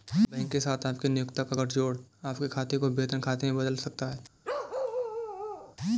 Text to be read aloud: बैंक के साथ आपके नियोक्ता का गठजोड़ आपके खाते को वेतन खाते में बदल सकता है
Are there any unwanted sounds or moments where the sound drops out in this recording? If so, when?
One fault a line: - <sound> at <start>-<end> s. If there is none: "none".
- bark at 4.4-5.8 s